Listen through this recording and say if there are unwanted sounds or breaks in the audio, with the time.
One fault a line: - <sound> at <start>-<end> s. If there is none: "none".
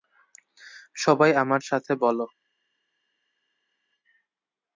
none